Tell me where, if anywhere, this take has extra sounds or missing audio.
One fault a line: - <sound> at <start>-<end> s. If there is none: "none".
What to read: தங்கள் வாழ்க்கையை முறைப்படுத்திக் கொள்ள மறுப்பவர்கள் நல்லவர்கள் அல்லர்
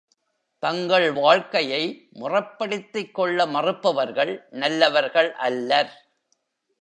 none